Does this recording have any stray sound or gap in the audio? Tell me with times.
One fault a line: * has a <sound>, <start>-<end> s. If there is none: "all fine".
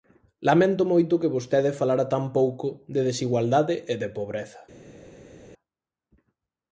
all fine